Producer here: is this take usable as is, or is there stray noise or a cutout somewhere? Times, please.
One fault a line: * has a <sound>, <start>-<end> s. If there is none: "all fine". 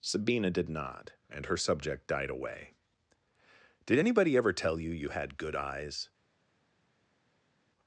all fine